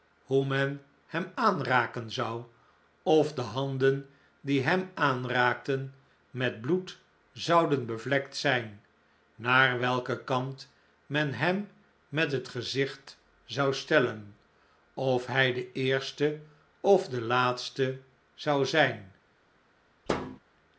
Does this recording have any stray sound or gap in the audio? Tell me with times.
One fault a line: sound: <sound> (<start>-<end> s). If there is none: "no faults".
sound: thud (20.1-20.4 s)